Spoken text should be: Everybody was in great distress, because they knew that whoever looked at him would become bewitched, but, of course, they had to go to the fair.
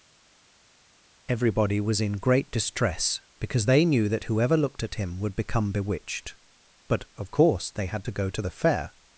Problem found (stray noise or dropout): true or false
false